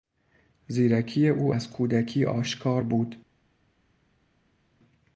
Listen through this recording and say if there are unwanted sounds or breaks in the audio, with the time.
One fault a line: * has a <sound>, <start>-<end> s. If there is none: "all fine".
all fine